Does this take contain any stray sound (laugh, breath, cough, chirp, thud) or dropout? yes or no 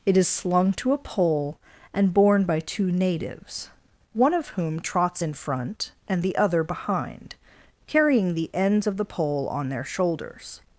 no